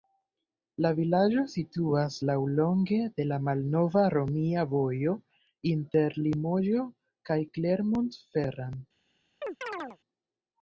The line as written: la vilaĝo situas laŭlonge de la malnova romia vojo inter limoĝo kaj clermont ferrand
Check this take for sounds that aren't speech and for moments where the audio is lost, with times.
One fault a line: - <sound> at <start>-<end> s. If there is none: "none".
- chirp at 9.4-10.0 s